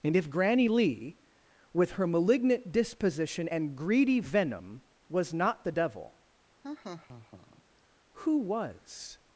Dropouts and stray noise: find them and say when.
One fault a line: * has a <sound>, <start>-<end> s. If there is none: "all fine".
* has a laugh, 6.6-7.6 s